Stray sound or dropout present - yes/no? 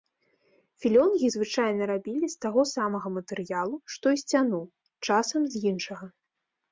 no